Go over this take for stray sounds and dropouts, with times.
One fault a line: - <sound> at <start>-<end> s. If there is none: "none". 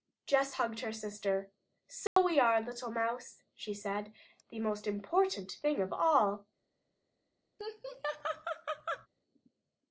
- dropout at 2.1-2.2 s
- laugh at 7.6-9.1 s